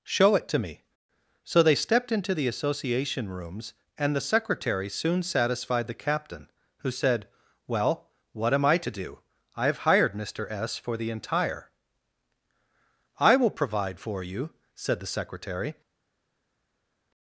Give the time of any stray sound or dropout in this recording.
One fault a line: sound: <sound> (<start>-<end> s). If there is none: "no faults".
no faults